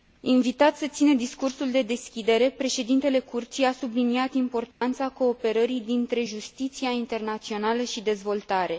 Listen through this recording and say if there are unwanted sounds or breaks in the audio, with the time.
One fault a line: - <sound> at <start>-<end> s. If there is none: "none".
- dropout at 4.7-4.8 s